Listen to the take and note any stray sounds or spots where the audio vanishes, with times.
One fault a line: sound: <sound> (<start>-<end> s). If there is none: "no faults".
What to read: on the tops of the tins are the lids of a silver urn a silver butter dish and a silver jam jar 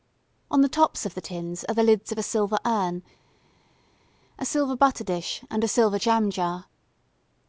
no faults